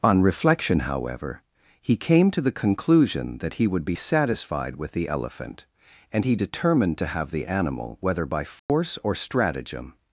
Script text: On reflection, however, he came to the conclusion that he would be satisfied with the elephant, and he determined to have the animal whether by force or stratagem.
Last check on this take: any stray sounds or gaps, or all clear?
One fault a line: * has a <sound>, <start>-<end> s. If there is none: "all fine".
* has a dropout, 8.6-8.7 s